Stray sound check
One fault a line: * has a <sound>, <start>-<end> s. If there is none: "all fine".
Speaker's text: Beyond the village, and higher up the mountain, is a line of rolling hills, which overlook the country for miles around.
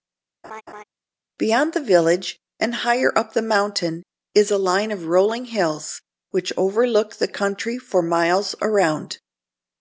* has a laugh, 0.4-0.8 s